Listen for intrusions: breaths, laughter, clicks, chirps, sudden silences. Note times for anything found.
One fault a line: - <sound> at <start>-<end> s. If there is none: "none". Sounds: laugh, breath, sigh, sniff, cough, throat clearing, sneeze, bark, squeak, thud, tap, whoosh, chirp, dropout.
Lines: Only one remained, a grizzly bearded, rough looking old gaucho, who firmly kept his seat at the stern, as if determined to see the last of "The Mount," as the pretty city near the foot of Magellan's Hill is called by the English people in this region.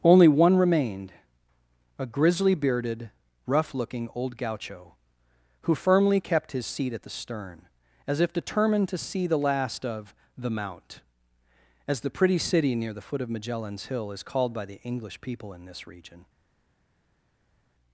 none